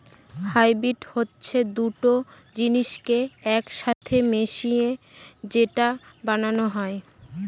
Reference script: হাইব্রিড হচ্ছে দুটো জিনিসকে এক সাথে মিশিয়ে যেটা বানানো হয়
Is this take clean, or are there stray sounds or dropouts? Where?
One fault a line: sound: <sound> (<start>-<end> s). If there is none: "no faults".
sound: dropout (3.9-4.0 s)